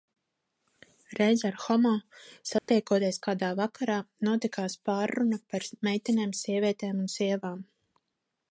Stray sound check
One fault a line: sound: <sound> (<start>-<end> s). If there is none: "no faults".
sound: dropout (2.6-2.7 s)